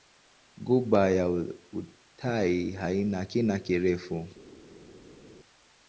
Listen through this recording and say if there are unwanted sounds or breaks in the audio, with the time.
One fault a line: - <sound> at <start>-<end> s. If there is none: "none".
none